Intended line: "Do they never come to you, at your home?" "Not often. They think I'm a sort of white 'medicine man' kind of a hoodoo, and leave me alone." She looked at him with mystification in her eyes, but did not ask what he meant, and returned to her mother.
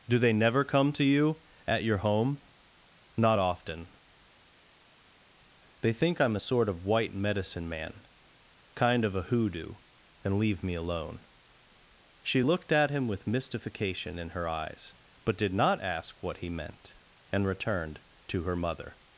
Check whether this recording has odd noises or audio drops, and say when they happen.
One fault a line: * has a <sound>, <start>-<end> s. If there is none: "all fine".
all fine